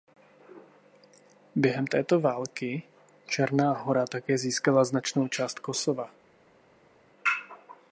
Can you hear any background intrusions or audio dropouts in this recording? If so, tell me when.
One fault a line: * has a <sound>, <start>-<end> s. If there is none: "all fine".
all fine